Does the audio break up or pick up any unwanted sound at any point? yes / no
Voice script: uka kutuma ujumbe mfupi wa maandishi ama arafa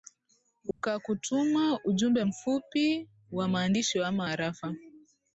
yes